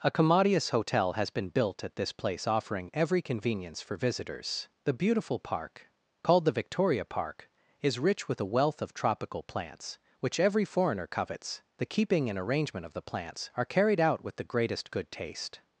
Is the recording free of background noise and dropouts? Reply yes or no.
yes